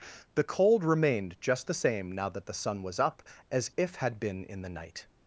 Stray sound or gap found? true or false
false